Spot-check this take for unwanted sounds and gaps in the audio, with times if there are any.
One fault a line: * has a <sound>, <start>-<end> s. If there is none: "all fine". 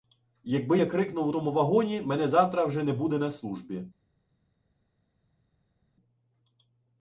all fine